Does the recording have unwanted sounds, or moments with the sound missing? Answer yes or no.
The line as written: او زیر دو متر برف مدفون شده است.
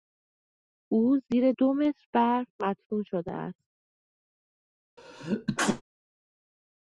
yes